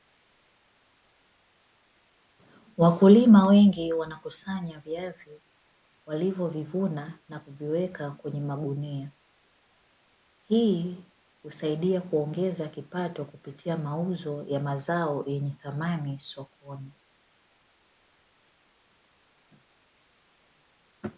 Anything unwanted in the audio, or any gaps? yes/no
no